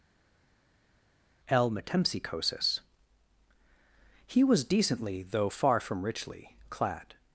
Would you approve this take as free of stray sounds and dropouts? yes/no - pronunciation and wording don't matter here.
yes